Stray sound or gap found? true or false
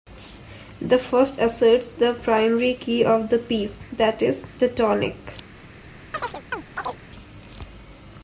true